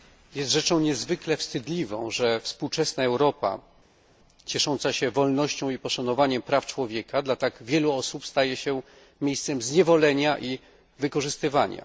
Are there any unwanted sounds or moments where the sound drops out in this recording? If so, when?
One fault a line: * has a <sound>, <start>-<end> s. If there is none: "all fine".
all fine